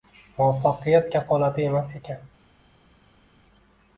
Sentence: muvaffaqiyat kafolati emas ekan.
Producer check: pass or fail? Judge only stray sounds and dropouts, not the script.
pass